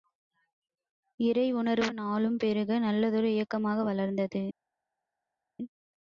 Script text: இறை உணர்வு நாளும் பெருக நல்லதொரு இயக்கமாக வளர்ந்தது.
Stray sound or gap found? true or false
false